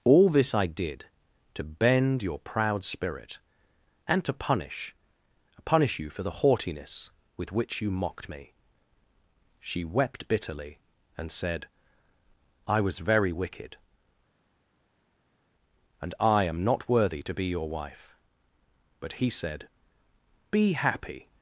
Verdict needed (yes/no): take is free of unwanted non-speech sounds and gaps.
yes